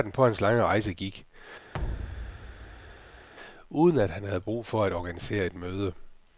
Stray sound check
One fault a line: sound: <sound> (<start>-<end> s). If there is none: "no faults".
sound: thud (1.7-3.3 s)